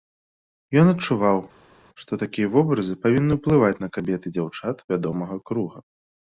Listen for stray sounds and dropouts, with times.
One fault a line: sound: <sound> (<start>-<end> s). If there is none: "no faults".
no faults